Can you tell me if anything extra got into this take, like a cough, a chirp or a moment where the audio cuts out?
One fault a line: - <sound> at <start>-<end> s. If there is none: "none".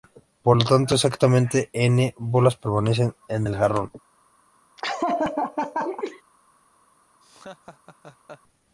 - laugh at 4.8-6.2 s
- laugh at 7.2-8.4 s